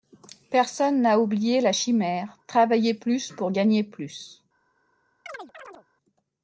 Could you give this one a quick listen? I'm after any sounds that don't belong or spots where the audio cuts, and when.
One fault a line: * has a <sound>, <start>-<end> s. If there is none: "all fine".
* has a chirp, 5.3-5.9 s